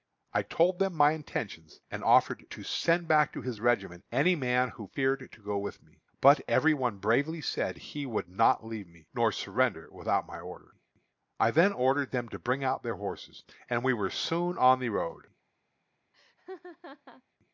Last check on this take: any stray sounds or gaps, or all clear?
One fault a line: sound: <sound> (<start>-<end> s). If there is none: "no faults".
sound: laugh (16.1-17.2 s)